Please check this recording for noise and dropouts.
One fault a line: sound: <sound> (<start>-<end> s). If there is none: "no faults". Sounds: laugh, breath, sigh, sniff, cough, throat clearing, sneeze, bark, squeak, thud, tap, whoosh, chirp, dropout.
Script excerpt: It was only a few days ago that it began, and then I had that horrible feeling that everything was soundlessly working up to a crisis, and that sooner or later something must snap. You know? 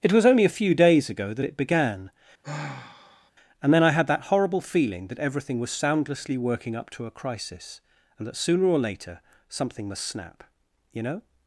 sound: sigh (2.4-3.3 s)